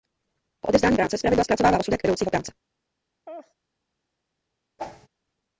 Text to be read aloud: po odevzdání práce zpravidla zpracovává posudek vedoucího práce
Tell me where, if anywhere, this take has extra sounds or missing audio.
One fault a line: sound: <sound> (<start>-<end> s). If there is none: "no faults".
sound: laugh (3.3-3.5 s)
sound: whoosh (4.8-5.1 s)